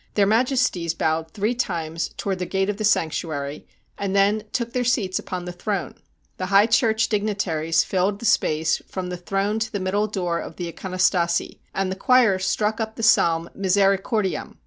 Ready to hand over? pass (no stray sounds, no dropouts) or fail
pass